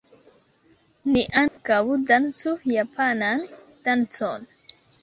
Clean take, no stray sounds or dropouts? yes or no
no